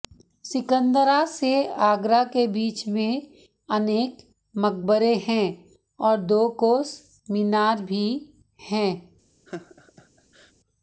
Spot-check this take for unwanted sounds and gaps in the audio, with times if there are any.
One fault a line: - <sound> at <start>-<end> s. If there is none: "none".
- laugh at 9.5-10.5 s